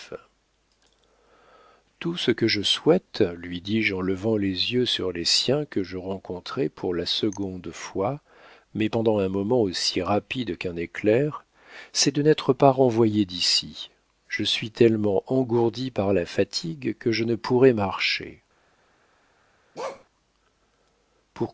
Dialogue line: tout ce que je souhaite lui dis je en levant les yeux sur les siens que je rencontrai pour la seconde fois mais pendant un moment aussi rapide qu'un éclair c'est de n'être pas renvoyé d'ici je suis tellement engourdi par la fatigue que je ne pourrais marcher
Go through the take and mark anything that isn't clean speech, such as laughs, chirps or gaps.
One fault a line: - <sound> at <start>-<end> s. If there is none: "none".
- bark at 19.7-20.0 s